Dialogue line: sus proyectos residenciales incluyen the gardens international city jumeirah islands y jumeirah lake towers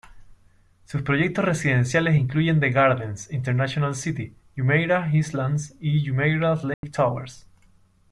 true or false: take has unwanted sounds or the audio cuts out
true